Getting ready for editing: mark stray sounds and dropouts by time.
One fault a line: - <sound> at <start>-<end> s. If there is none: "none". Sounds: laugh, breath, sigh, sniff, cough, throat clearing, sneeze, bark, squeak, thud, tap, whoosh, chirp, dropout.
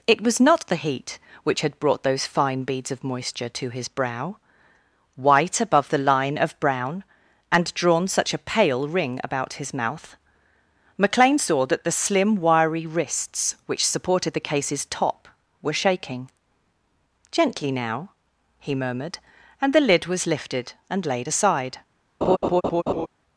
- laugh at 22.2-23.1 s